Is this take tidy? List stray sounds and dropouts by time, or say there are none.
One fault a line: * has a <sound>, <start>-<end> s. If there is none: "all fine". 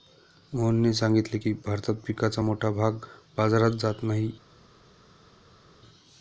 all fine